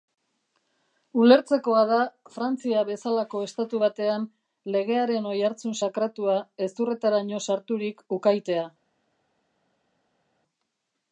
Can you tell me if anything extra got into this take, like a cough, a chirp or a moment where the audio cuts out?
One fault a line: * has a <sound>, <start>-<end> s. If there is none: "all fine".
all fine